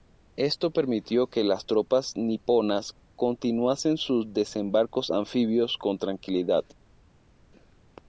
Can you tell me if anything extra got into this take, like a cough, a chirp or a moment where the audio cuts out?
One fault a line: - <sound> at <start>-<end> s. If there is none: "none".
none